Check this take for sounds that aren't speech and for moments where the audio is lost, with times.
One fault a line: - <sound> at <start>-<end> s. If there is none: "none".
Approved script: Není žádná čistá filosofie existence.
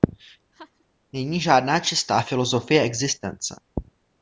- laugh at 0.5-0.8 s